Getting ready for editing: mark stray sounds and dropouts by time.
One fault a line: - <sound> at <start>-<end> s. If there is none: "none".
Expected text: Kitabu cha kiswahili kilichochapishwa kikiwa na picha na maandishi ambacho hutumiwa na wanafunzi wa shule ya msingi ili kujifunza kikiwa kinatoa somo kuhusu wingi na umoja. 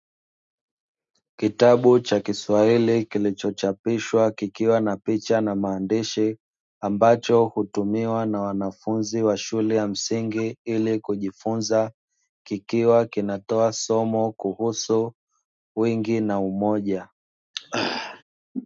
- throat clearing at 17.5-18.2 s